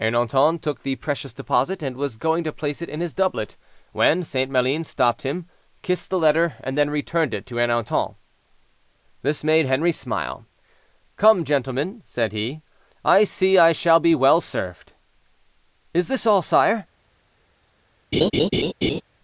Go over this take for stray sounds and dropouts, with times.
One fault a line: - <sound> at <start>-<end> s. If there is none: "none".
- laugh at 18.1-19.0 s